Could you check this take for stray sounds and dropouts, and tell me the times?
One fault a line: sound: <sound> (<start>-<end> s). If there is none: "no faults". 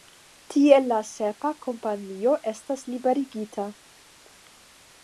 no faults